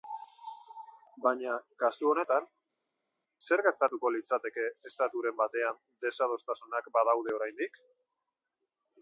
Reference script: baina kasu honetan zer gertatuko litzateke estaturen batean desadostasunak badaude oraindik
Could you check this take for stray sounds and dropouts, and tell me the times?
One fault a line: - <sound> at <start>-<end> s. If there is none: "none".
none